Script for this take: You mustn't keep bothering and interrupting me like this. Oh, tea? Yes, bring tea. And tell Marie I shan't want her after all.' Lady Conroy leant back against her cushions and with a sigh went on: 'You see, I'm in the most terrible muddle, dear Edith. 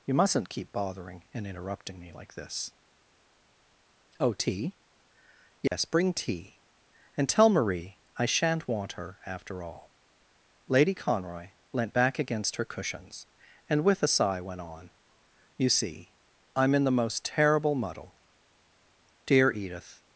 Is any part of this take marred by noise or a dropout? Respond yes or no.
yes